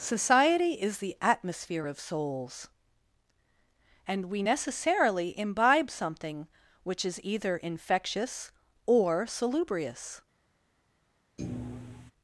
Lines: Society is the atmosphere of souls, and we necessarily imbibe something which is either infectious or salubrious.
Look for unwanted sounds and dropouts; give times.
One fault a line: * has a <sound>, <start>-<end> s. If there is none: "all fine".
* has a thud, 11.4-12.1 s